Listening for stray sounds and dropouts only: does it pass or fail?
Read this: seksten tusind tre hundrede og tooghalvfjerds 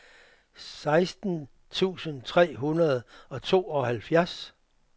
pass